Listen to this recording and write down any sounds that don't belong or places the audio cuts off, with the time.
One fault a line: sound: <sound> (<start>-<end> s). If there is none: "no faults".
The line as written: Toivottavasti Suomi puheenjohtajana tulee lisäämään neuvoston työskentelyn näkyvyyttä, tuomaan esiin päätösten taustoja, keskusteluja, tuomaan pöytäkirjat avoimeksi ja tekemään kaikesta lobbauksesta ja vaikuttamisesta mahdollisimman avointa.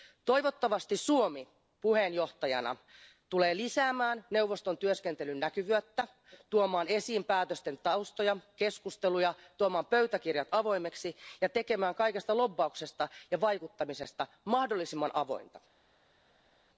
no faults